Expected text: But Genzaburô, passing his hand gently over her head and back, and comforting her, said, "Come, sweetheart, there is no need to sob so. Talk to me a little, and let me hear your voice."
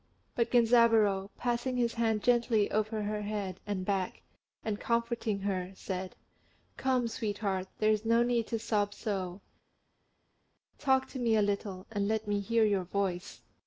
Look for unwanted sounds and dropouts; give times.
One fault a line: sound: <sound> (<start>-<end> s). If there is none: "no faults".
no faults